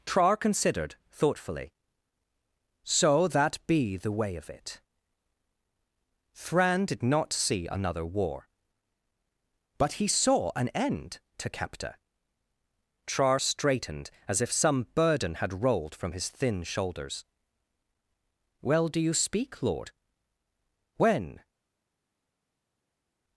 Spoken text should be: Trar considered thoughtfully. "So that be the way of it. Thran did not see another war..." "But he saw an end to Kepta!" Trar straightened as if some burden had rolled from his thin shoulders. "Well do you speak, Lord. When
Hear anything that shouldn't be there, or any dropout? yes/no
no